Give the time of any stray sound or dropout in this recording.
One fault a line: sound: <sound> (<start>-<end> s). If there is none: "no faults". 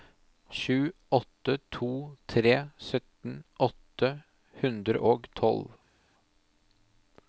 no faults